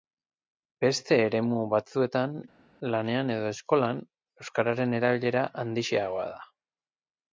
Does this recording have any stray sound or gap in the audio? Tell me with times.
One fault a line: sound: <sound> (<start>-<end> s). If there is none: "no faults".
no faults